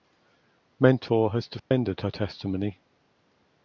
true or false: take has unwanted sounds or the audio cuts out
true